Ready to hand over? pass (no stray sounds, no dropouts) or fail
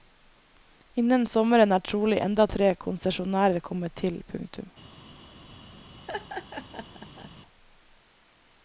fail